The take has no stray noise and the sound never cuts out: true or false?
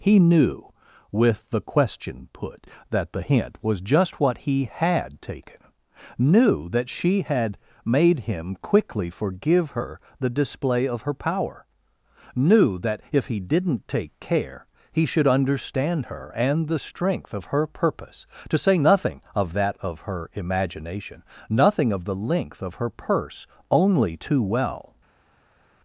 true